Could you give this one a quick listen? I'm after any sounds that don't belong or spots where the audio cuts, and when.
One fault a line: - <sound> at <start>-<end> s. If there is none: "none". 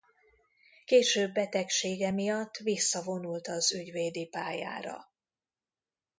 none